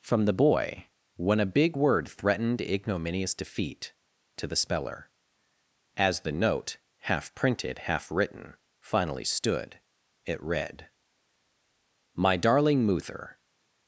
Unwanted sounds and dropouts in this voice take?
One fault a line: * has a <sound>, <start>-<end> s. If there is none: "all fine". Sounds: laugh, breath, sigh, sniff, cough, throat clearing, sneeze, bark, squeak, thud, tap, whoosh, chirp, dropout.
all fine